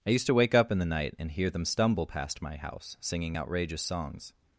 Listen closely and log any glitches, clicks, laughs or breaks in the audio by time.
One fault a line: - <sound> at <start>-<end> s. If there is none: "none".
none